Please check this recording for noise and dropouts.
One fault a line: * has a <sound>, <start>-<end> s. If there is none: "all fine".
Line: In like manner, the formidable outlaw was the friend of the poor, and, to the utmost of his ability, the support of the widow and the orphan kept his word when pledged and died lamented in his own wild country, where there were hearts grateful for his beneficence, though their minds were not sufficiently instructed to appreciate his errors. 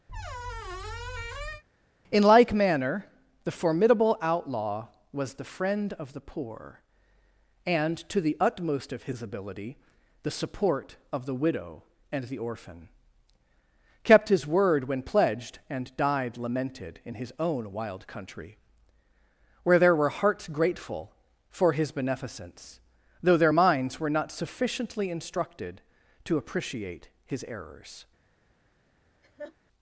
* has a squeak, 0.1-1.6 s
* has a laugh, 29.2-29.6 s